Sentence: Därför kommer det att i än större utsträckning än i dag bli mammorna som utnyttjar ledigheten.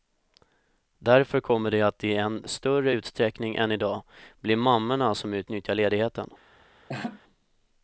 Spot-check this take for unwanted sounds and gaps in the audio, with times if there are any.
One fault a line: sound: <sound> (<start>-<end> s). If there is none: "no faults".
sound: laugh (6.9-7.2 s)